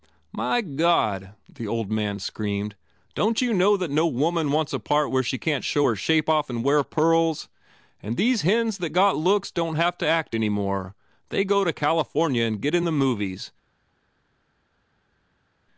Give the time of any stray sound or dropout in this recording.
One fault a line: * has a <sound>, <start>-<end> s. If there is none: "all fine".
all fine